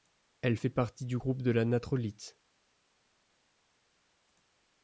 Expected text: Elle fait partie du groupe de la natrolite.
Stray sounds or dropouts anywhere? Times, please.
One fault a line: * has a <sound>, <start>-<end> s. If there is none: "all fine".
all fine